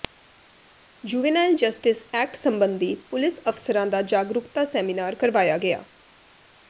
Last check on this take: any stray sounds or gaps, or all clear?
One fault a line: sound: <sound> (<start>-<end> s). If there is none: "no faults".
no faults